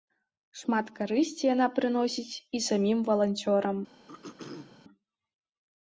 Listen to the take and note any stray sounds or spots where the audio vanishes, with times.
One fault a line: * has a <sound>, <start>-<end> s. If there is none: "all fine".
* has a throat clearing, 4.1-4.8 s